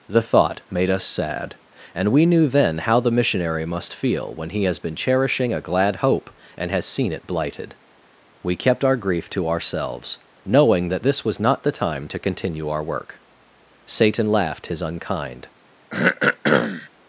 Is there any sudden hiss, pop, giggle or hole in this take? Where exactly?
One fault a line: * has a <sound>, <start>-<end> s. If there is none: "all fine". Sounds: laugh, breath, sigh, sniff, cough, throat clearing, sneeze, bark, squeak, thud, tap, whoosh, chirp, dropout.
* has a throat clearing, 15.9-16.9 s